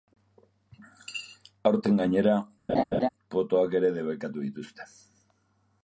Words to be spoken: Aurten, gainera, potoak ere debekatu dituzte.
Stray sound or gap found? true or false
true